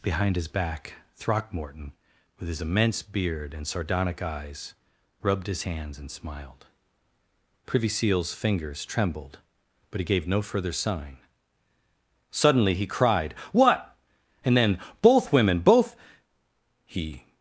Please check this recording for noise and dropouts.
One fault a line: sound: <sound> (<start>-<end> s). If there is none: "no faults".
no faults